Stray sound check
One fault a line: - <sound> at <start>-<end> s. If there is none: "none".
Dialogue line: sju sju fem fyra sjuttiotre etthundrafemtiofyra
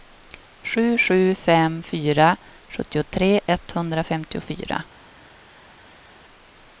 none